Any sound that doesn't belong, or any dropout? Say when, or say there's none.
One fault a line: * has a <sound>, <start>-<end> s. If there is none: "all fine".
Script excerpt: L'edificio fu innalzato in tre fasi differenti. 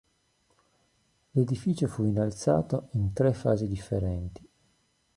all fine